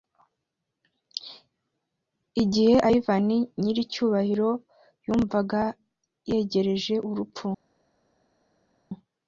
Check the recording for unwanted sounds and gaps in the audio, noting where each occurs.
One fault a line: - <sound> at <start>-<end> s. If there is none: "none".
none